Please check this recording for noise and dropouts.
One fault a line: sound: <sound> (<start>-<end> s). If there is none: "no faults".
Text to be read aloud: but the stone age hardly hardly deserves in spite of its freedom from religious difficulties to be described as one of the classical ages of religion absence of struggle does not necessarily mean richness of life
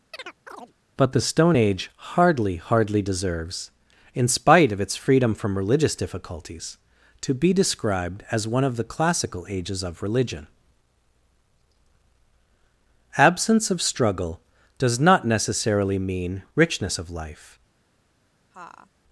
sound: chirp (0.1-0.7 s)
sound: laugh (18.5-18.9 s)